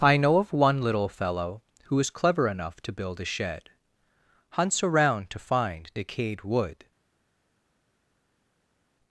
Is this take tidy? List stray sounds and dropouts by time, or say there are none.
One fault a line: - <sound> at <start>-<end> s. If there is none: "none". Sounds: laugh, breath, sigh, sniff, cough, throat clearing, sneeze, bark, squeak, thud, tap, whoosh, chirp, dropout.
none